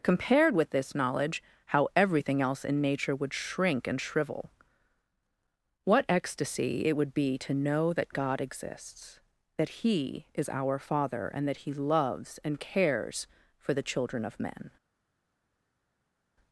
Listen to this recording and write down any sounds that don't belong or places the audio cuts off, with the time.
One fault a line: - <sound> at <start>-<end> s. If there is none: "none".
none